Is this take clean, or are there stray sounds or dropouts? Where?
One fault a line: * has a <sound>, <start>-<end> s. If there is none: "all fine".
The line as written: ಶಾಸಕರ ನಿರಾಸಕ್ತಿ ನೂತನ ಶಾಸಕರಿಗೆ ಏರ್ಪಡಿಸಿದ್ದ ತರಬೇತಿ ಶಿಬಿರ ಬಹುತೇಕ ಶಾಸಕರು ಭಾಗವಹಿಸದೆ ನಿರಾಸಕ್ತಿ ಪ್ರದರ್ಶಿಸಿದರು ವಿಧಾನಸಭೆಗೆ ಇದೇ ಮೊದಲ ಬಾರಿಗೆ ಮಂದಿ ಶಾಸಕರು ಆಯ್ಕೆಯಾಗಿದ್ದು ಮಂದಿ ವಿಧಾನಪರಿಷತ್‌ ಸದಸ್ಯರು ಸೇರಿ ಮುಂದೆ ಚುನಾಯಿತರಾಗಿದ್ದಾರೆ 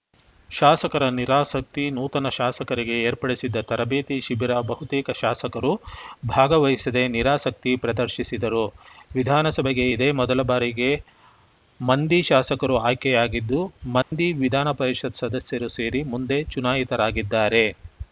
* has a dropout, 14.0-14.1 s